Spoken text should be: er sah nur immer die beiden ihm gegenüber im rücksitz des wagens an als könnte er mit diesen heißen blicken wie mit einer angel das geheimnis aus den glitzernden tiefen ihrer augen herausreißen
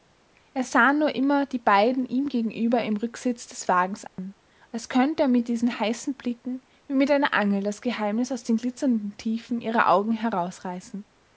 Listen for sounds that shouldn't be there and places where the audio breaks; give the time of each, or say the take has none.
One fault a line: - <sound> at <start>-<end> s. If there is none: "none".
- dropout at 4.1-4.2 s